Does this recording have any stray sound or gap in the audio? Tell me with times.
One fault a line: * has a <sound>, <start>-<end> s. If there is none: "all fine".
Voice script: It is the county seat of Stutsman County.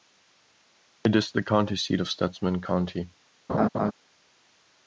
* has a laugh, 3.5-3.9 s